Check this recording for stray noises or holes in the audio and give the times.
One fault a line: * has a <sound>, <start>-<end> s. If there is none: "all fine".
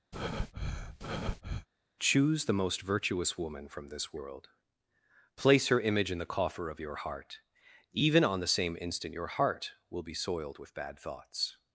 * has a breath, 0.1-1.7 s